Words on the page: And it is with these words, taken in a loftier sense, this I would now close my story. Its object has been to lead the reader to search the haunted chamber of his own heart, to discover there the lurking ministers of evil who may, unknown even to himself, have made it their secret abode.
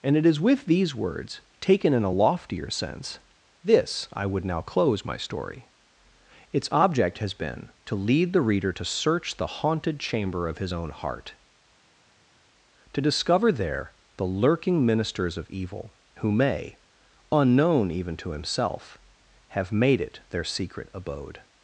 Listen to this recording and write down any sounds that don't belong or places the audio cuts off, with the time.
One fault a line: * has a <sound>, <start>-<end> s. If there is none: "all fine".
all fine